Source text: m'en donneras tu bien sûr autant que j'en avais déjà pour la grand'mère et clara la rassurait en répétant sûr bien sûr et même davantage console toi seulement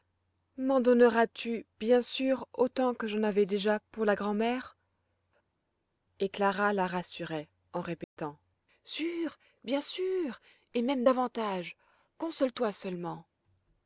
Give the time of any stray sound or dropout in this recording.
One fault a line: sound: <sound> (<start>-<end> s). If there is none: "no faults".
sound: dropout (8.0-8.2 s)